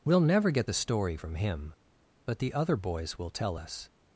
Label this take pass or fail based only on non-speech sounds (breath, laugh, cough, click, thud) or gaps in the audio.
pass